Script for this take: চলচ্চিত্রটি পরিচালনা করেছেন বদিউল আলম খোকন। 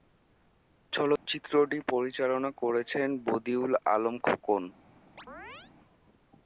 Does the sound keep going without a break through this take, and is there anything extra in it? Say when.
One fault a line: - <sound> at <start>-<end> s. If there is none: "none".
- dropout at 1.2-1.3 s
- chirp at 5.2-5.7 s